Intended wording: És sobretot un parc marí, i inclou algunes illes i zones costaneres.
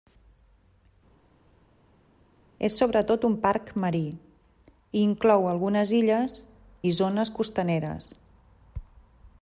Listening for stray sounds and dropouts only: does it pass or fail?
pass